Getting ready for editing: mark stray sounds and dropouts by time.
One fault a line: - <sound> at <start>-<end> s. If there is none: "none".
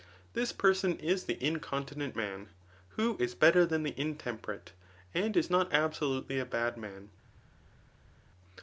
none